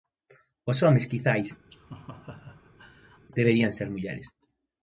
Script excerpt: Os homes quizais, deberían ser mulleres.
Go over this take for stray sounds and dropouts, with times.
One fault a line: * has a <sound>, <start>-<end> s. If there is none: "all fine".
* has a laugh, 1.7-3.3 s